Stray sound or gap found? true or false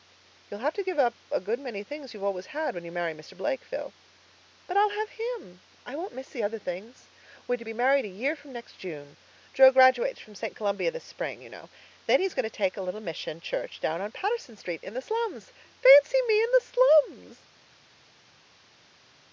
false